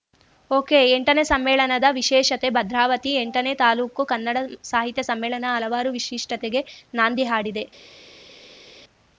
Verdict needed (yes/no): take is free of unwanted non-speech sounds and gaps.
yes